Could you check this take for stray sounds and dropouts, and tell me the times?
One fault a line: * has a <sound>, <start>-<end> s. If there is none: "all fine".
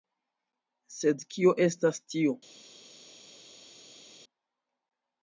all fine